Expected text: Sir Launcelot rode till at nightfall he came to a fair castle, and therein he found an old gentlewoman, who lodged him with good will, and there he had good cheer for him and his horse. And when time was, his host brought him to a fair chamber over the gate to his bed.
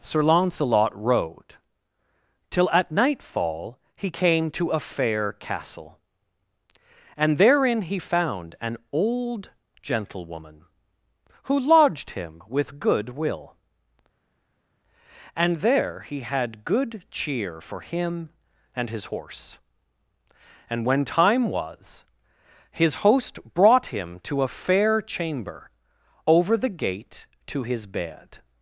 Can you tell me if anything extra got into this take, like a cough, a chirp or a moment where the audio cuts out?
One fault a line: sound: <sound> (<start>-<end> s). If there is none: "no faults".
no faults